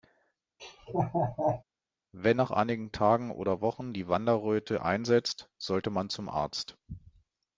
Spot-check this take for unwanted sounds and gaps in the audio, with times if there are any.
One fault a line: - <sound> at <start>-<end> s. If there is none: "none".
- laugh at 0.6-1.6 s